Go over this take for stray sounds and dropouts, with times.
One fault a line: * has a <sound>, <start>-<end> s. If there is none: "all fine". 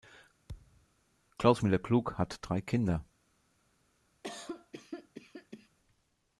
* has a thud, 0.5-0.9 s
* has a cough, 4.2-5.7 s